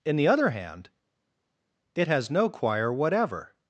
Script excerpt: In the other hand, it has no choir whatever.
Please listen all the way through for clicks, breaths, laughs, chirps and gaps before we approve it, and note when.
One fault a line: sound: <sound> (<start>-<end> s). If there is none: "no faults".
no faults